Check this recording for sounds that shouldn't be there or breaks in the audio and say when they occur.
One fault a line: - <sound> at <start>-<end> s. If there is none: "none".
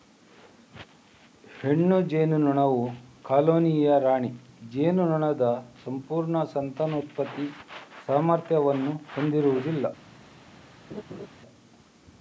- laugh at 10.9-11.3 s